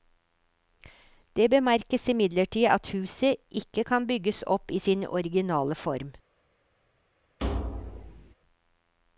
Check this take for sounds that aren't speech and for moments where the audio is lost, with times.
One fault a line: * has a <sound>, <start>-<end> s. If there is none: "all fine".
* has a thud, 7.4-8.3 s